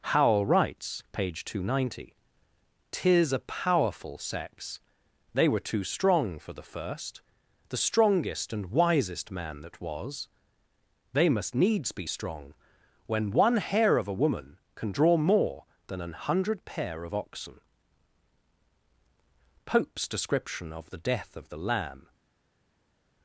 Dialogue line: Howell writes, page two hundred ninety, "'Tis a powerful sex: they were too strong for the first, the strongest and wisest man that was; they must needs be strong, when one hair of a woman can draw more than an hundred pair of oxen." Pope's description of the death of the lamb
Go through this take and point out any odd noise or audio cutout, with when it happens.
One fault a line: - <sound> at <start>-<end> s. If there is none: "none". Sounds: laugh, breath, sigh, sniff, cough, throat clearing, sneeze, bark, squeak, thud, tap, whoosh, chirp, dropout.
none